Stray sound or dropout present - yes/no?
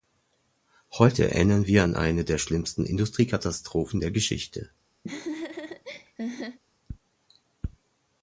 yes